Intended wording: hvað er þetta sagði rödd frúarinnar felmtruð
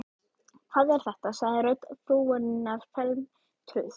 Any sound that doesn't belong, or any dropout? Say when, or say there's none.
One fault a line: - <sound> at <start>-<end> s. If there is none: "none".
none